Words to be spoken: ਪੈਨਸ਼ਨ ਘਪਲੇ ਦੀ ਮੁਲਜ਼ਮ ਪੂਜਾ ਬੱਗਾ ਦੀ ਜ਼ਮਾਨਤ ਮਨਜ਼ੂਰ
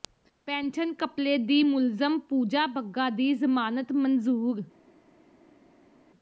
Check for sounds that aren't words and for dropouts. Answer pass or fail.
pass